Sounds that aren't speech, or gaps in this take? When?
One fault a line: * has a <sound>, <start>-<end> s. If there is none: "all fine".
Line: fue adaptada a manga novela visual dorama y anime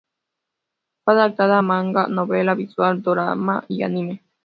all fine